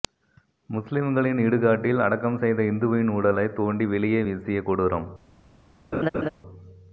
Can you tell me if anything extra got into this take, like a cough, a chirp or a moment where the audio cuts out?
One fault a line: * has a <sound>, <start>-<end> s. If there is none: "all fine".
* has a laugh, 5.9-6.3 s